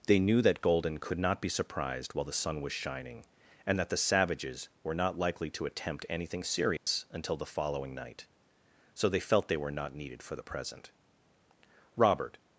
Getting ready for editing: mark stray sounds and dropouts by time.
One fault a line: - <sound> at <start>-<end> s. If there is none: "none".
- dropout at 6.8-6.9 s